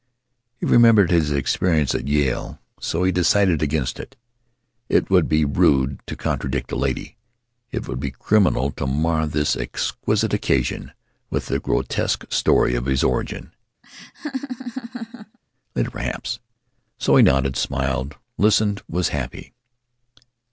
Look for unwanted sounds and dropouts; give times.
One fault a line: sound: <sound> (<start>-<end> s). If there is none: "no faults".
sound: laugh (13.8-15.4 s)